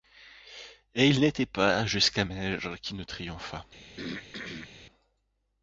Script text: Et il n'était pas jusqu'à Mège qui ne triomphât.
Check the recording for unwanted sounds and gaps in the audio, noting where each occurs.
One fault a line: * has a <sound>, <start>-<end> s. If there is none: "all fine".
* has a throat clearing, 4.0-4.7 s